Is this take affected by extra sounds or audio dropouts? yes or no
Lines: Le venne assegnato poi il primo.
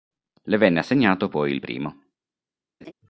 yes